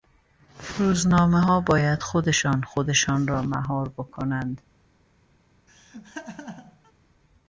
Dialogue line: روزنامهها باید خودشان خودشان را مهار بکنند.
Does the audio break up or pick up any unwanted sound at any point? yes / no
yes